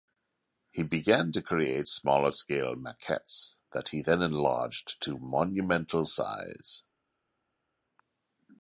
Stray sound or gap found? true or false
false